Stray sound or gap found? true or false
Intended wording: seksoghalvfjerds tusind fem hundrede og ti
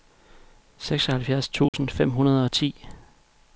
true